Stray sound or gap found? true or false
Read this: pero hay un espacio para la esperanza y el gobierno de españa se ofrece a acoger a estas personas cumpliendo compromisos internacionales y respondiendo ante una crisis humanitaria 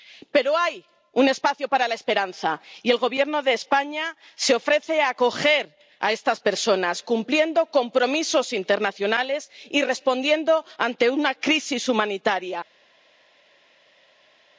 false